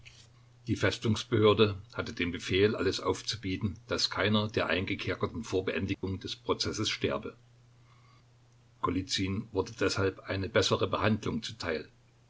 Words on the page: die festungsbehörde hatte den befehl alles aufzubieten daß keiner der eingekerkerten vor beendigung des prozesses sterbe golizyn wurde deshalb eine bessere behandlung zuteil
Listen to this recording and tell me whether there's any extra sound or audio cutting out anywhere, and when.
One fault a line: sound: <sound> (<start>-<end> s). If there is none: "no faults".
sound: dropout (5.9-6.0 s)